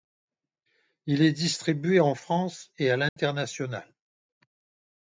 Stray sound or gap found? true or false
true